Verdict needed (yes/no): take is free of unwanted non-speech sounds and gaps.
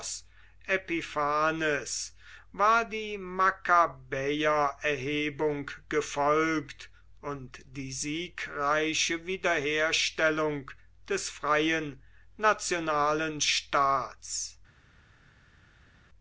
yes